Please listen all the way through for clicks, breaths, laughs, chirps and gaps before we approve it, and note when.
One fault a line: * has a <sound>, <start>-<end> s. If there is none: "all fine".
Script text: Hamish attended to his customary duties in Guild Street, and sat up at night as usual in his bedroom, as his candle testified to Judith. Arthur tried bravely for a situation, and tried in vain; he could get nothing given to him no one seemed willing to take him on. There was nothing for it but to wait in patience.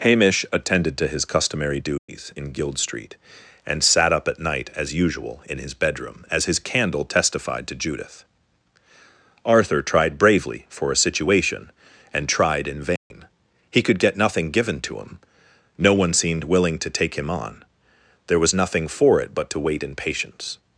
* has a dropout, 2.0-2.1 s
* has a dropout, 13.0-13.1 s